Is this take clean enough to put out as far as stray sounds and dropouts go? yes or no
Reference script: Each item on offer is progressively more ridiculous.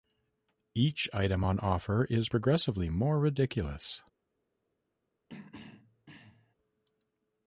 no